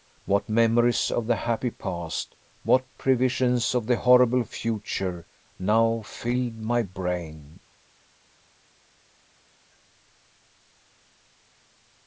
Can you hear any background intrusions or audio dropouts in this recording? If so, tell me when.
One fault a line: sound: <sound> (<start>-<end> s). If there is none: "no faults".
no faults